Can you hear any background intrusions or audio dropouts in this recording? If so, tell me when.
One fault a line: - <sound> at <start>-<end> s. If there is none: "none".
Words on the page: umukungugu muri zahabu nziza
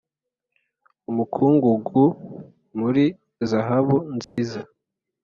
- dropout at 4.2-4.4 s